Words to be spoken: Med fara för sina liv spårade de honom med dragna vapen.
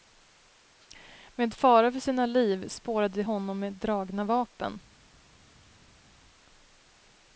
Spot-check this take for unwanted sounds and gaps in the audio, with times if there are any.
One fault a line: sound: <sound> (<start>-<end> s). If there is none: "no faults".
no faults